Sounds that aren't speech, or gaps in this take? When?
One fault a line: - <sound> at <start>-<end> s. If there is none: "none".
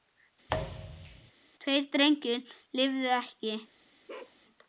- thud at 0.5-1.3 s
- bark at 4.1-4.4 s